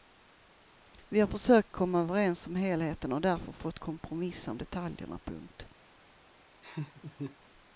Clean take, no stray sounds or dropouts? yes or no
no